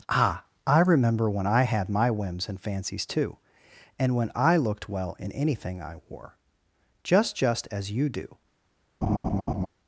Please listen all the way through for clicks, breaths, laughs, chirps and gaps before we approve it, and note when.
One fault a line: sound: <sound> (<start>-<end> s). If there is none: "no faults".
sound: laugh (9.0-9.7 s)